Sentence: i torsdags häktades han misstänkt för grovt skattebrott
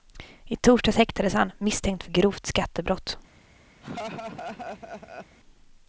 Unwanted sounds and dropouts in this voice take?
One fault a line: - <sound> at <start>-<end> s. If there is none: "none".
- laugh at 3.8-5.4 s